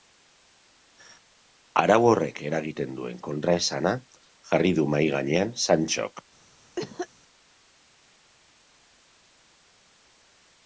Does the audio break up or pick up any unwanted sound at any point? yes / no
yes